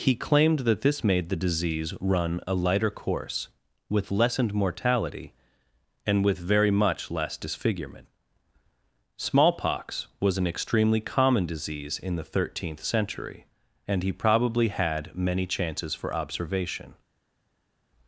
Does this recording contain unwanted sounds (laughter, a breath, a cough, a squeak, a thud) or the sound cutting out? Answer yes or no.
no